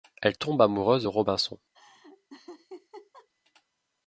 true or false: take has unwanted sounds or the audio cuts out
true